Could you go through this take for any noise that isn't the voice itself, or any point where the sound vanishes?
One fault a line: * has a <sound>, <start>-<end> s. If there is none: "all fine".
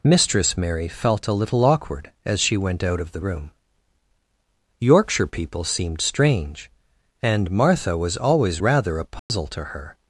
* has a dropout, 9.2-9.3 s